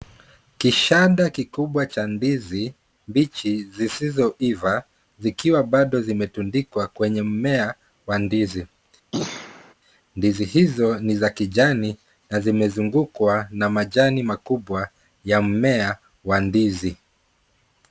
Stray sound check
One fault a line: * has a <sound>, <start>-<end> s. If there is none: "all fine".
* has a throat clearing, 9.1-9.7 s